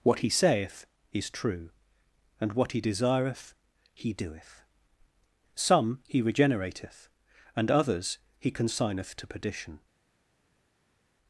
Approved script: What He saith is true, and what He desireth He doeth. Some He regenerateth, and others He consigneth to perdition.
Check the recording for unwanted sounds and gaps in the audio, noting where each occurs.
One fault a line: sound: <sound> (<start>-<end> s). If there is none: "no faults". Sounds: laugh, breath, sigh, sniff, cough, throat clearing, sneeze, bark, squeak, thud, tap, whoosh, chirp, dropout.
no faults